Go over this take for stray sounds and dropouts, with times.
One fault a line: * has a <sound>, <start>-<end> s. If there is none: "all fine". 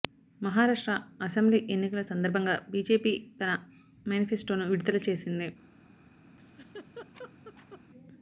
* has a laugh, 6.4-7.8 s